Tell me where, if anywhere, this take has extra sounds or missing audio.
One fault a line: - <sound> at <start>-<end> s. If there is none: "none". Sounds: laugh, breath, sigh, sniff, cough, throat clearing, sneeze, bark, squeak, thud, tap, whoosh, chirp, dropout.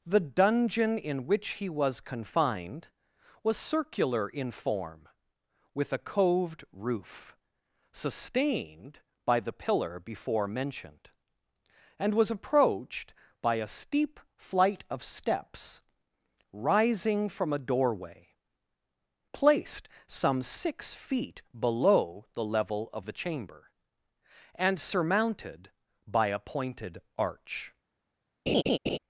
- laugh at 28.5-29.0 s